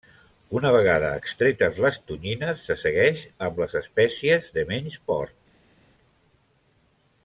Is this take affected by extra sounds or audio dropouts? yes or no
no